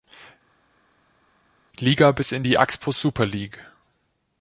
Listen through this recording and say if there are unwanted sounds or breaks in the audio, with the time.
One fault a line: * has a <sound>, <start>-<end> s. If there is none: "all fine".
all fine